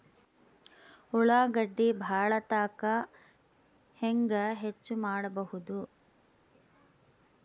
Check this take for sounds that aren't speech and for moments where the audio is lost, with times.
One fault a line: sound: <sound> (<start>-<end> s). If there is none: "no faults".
no faults